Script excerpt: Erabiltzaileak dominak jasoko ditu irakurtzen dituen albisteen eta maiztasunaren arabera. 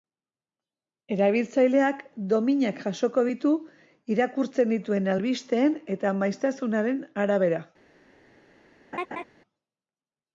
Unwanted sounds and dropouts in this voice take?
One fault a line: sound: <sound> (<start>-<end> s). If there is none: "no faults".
sound: laugh (8.9-9.2 s)